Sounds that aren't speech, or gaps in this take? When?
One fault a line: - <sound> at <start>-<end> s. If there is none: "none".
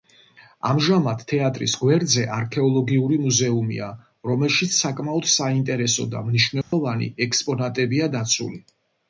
- dropout at 6.6-6.7 s